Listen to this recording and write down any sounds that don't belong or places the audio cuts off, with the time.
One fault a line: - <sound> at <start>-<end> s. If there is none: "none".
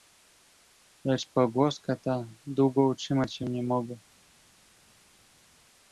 none